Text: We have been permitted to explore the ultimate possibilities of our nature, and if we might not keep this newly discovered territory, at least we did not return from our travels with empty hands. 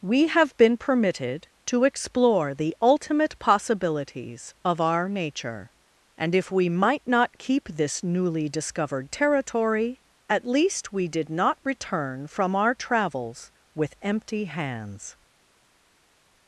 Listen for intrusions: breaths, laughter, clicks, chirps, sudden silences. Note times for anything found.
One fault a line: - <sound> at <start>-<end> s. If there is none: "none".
none